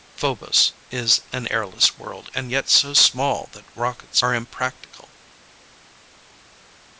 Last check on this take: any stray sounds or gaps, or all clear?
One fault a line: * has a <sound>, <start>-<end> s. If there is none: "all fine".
all fine